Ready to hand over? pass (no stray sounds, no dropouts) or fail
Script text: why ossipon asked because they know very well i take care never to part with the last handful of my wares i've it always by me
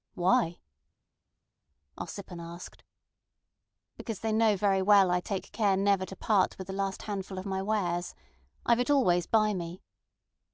pass